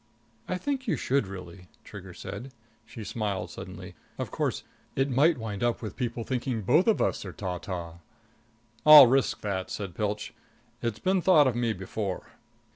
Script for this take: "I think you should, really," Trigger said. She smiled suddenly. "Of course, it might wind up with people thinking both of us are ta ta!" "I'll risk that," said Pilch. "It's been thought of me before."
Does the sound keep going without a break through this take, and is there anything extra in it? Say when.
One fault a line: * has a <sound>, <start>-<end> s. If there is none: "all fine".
all fine